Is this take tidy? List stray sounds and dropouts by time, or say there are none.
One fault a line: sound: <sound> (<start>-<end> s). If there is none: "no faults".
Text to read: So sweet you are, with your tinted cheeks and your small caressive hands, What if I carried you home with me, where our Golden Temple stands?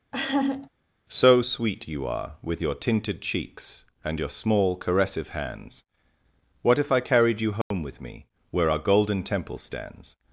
sound: laugh (0.1-0.7 s)
sound: dropout (7.6-7.7 s)